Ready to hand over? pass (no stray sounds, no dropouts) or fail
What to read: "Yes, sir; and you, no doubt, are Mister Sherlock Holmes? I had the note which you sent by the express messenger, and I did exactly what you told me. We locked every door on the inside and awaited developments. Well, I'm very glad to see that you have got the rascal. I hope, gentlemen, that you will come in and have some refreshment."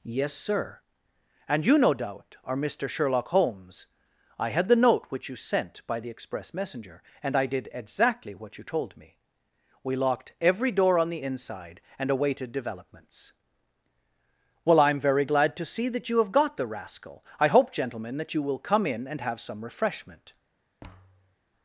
fail